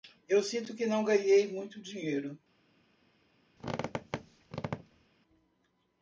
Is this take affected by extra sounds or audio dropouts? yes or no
yes